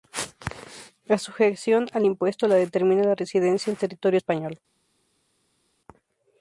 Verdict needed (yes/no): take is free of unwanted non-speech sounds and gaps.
yes